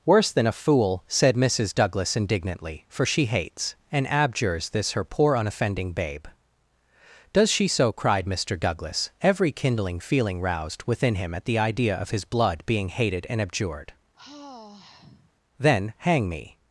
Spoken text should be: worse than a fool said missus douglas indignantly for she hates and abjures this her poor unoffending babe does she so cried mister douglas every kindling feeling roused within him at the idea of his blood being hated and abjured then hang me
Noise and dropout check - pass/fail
fail